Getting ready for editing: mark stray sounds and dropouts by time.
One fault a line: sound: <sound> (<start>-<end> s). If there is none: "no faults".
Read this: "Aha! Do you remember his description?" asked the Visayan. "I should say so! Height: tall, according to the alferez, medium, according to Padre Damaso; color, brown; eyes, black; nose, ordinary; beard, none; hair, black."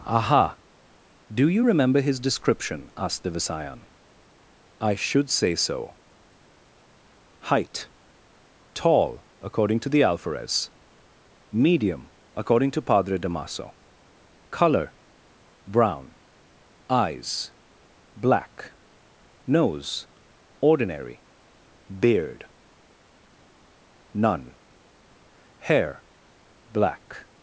no faults